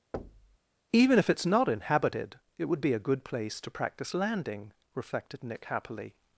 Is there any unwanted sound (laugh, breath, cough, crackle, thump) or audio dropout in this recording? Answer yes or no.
yes